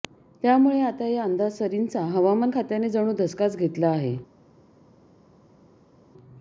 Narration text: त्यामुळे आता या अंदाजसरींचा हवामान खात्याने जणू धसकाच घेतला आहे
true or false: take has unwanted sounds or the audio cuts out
false